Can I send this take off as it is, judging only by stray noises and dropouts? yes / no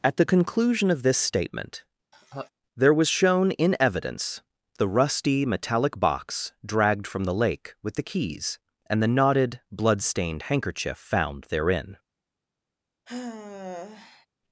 no